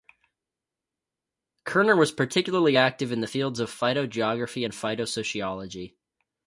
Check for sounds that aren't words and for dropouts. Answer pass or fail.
pass